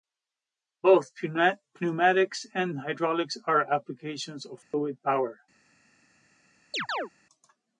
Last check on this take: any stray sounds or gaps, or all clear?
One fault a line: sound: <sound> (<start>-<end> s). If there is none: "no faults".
sound: dropout (4.6-4.7 s)
sound: chirp (6.7-7.1 s)